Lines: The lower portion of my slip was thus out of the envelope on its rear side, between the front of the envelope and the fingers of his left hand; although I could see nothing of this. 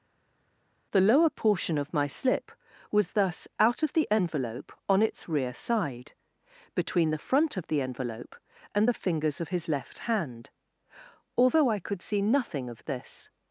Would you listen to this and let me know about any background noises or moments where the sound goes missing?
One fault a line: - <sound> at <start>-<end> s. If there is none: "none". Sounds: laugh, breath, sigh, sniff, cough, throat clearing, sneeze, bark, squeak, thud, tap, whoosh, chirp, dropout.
none